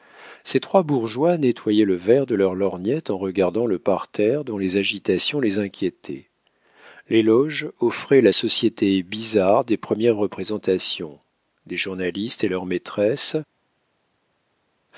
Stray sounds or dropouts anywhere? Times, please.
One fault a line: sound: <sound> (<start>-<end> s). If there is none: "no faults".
no faults